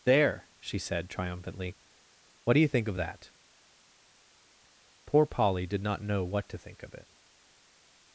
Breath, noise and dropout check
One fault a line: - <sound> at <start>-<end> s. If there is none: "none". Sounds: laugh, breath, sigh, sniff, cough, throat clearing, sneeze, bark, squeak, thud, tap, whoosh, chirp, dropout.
none